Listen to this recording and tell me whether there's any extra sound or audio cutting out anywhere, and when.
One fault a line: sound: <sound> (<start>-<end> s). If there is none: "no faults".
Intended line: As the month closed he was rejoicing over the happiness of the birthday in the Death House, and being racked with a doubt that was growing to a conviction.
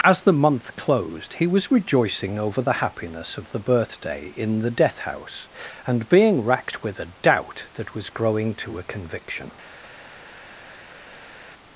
no faults